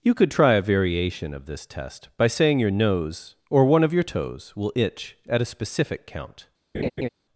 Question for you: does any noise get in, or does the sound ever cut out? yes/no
yes